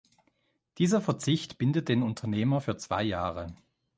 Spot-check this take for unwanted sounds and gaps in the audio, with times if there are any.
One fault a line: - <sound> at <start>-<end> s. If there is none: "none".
none